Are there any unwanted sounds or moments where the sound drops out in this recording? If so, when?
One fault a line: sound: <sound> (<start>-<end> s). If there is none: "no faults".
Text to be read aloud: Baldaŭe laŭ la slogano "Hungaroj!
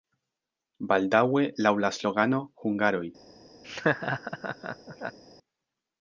sound: laugh (3.6-5.2 s)